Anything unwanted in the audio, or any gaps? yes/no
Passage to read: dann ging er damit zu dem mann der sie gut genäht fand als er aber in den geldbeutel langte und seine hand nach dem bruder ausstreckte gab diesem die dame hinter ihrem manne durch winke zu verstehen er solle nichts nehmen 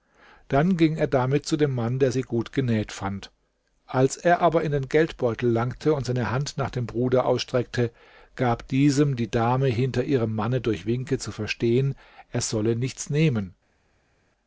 no